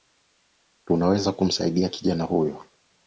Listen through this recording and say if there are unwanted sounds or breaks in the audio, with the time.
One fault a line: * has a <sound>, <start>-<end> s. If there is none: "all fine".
all fine